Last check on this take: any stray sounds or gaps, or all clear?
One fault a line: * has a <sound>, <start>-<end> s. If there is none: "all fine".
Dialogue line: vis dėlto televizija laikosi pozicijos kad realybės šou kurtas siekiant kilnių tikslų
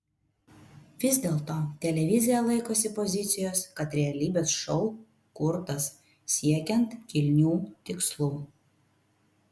all fine